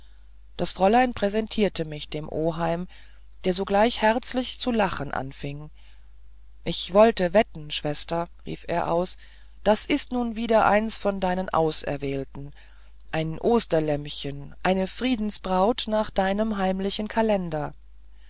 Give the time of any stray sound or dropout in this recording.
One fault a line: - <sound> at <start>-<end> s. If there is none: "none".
none